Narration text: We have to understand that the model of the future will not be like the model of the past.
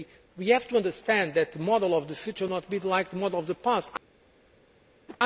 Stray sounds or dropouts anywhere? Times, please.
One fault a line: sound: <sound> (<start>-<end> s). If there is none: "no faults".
sound: whoosh (5.1-5.2 s)